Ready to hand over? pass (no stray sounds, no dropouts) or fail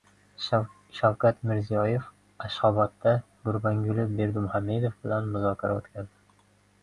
pass